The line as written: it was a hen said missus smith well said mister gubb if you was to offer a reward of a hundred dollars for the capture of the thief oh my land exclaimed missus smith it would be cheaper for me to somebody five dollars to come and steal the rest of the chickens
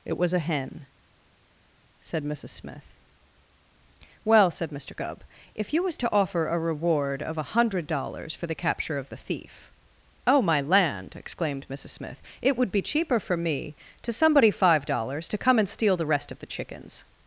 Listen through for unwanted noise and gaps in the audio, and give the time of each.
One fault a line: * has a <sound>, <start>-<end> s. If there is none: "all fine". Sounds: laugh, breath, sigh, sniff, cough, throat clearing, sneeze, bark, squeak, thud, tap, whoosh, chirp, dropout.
all fine